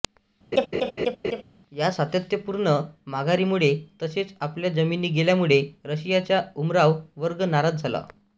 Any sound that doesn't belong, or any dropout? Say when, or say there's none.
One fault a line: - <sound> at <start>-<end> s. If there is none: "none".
- laugh at 0.5-1.4 s